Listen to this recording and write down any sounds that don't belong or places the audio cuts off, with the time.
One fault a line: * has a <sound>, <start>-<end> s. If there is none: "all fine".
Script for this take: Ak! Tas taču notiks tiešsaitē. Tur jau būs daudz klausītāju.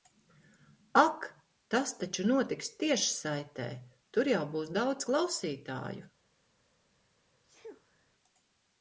* has a sneeze, 7.4-8.1 s